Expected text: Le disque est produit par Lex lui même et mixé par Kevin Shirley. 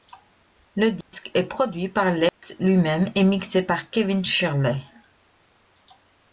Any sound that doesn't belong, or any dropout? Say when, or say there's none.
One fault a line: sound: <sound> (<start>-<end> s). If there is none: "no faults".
sound: dropout (1.0-1.1 s)
sound: dropout (2.3-2.4 s)